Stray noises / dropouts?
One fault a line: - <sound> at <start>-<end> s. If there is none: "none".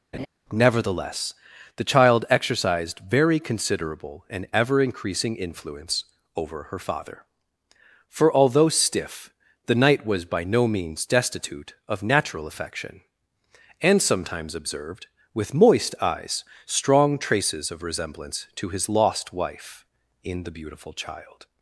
- laugh at 0.1-0.3 s